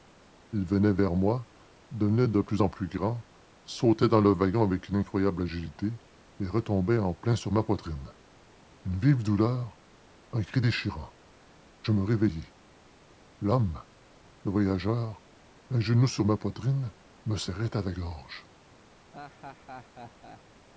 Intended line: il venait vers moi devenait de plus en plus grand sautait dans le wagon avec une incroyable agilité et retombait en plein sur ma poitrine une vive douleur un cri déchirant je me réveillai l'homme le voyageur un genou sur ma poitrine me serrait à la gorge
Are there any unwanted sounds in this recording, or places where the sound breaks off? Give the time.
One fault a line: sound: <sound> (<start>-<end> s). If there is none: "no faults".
sound: laugh (19.1-20.4 s)